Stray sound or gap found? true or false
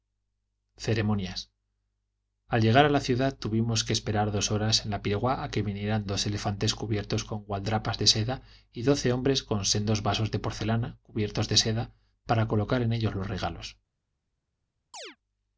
true